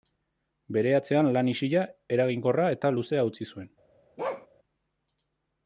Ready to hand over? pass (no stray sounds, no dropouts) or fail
fail